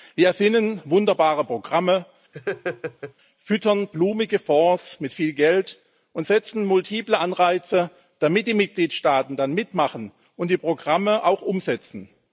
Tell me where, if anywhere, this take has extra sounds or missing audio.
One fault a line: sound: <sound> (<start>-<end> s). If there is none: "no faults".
sound: laugh (2.3-3.1 s)